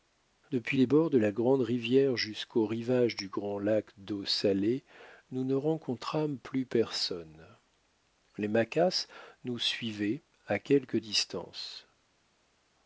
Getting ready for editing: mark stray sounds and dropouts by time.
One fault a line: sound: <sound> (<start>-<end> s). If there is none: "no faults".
no faults